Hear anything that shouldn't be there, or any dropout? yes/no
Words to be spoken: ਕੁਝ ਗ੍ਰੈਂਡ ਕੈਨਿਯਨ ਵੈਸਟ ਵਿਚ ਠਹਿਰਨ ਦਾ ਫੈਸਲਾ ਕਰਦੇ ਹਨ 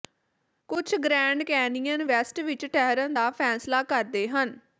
no